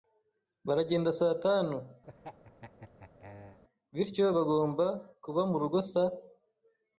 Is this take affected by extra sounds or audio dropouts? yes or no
yes